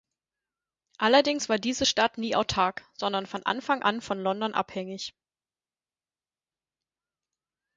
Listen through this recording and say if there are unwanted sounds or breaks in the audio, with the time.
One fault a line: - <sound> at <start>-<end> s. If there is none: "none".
none